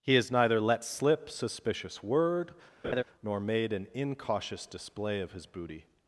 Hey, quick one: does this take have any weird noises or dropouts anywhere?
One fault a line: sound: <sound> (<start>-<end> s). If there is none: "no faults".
sound: laugh (2.8-3.0 s)